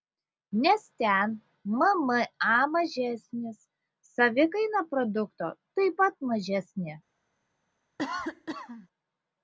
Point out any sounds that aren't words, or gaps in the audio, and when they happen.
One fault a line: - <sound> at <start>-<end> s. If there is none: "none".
- cough at 8.0-8.9 s